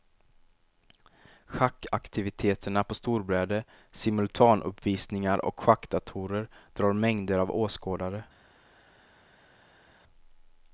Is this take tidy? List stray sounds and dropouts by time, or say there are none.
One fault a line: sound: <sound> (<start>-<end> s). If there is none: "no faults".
no faults